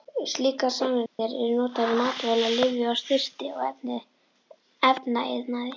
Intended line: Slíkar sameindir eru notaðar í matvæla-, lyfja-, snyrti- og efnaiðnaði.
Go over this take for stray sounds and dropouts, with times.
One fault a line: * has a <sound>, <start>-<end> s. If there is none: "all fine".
* has a dropout, 1.1-1.2 s